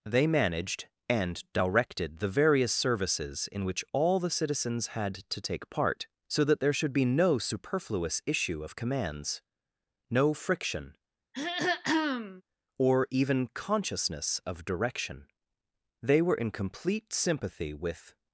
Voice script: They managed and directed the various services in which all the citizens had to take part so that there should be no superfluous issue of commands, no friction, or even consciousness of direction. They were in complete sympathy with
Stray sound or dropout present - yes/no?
yes